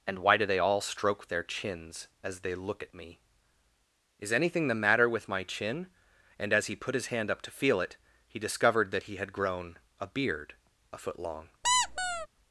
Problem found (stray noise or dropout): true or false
true